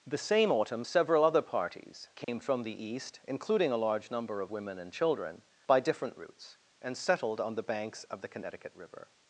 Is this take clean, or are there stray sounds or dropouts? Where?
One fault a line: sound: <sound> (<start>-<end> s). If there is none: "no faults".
sound: dropout (2.2-2.3 s)